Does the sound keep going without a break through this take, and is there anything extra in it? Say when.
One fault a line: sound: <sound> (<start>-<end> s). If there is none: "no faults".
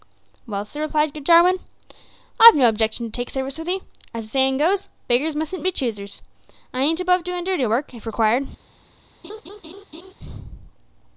sound: laugh (9.2-10.1 s)